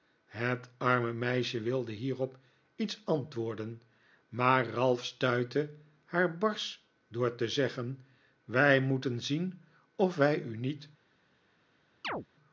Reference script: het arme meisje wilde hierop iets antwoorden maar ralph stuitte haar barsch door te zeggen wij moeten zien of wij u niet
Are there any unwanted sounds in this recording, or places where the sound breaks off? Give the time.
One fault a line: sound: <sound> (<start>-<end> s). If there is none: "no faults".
sound: chirp (12.0-12.3 s)